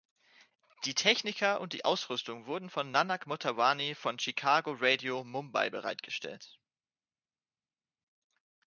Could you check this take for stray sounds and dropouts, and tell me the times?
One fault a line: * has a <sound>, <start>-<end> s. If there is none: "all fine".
all fine